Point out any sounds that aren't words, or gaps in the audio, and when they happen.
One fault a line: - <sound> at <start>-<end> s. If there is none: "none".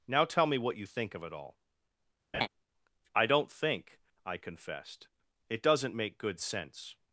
- laugh at 2.3-2.5 s